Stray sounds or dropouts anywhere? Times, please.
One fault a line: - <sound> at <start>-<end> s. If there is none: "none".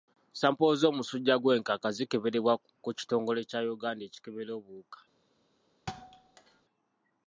- thud at 5.9-6.6 s